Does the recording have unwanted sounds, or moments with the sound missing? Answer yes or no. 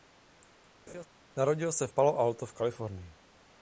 yes